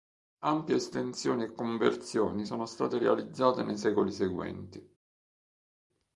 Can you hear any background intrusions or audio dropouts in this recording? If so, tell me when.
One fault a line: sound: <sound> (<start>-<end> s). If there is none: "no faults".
no faults